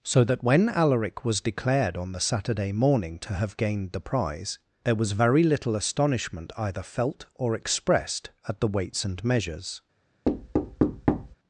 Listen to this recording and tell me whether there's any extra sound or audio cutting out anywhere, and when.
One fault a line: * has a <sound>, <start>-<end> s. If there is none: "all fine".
* has a thud, 10.2-11.3 s